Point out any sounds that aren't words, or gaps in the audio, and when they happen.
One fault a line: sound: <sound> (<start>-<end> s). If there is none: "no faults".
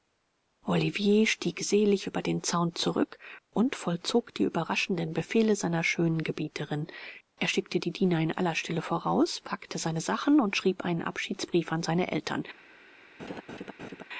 sound: laugh (13.2-14.0 s)